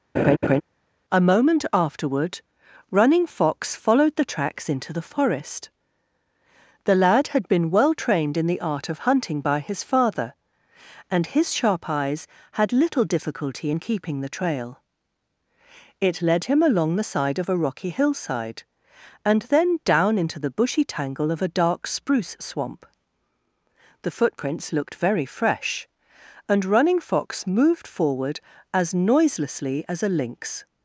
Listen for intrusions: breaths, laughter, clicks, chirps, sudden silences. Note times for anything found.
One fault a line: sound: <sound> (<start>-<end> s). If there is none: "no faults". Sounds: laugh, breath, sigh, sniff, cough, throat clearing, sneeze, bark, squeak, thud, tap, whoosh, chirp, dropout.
sound: laugh (0.2-0.6 s)